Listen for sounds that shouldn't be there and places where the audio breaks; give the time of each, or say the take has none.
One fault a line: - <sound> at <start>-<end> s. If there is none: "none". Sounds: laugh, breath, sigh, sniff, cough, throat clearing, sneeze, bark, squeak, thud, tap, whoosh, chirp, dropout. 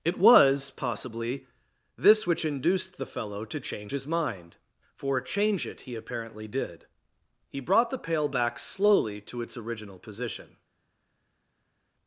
none